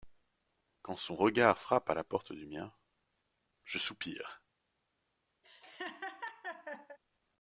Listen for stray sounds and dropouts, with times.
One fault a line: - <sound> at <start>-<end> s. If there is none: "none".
- laugh at 5.4-7.0 s